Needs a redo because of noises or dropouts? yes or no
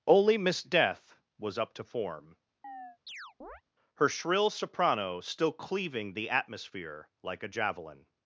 yes